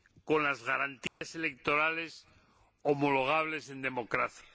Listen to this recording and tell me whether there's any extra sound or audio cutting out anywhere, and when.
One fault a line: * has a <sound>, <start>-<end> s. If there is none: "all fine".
* has a dropout, 1.1-1.2 s